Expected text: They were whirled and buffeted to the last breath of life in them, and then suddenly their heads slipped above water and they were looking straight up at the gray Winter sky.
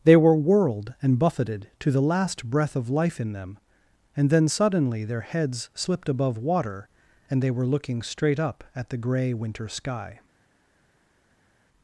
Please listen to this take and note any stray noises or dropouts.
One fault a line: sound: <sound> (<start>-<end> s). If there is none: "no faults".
no faults